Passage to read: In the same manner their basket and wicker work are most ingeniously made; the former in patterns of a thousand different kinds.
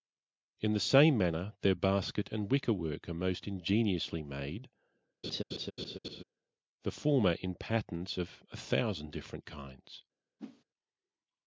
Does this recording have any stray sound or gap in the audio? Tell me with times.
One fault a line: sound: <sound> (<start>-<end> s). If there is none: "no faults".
sound: laugh (5.2-6.2 s)
sound: whoosh (10.4-10.6 s)